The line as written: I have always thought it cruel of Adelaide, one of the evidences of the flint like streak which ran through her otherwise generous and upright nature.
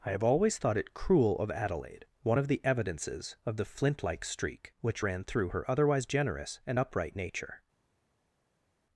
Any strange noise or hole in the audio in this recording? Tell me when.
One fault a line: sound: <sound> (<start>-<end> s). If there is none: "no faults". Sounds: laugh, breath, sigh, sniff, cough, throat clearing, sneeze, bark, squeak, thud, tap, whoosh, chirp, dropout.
no faults